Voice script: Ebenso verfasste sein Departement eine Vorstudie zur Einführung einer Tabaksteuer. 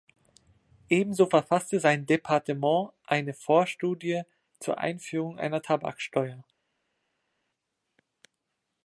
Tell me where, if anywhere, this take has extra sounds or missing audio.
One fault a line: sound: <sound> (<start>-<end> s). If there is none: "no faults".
no faults